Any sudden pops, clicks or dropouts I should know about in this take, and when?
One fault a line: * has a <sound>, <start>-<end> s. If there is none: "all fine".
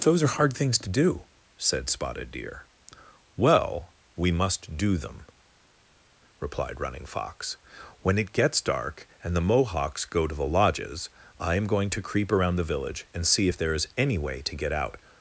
all fine